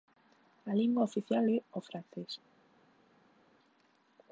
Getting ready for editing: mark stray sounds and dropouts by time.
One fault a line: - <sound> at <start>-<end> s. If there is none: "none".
none